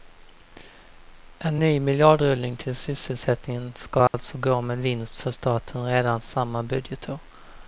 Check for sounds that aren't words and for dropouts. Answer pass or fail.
fail